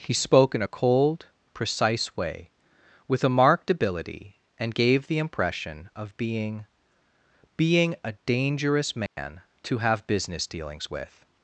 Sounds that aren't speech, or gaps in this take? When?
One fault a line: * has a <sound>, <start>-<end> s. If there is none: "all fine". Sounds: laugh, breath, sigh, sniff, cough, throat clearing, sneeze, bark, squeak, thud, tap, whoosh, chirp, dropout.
* has a dropout, 9.1-9.2 s